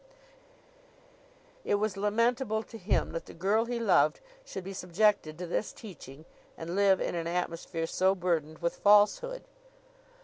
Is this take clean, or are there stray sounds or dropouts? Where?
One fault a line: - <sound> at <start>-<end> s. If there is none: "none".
none